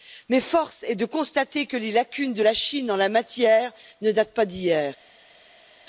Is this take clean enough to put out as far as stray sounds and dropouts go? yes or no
yes